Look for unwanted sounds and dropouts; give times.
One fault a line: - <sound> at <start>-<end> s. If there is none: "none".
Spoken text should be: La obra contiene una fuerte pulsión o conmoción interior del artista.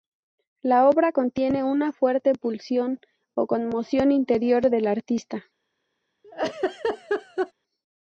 - laugh at 6.2-7.5 s